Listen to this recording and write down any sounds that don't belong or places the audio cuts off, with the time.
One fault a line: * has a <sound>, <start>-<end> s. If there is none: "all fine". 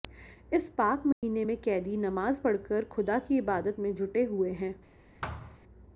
* has a dropout, 1.1-1.2 s
* has a thud, 5.2-5.6 s